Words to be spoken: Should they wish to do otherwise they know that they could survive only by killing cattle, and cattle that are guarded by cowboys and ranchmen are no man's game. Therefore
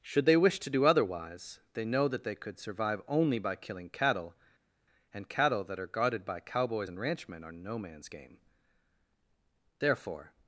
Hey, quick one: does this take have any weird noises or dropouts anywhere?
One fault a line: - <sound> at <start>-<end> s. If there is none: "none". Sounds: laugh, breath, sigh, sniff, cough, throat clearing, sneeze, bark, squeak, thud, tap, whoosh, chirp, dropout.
none